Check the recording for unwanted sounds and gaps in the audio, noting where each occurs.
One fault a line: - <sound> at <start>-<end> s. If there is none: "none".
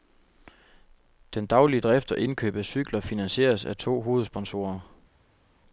none